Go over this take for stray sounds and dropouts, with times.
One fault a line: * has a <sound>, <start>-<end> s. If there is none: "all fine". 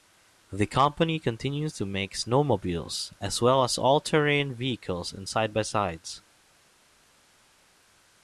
all fine